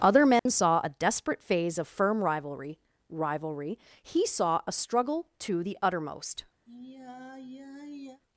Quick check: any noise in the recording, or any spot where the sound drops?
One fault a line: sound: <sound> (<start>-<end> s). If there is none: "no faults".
sound: dropout (0.4-0.5 s)
sound: sigh (6.7-8.2 s)